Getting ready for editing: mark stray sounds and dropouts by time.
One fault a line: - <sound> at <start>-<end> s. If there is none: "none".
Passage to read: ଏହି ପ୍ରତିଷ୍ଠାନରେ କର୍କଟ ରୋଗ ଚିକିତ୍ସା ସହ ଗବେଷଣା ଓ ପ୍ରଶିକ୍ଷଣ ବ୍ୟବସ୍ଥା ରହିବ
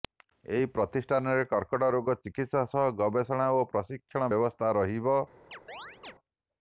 - chirp at 5.5-6.1 s